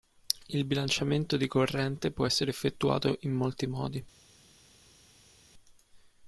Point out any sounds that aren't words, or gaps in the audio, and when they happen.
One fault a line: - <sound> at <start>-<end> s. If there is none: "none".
none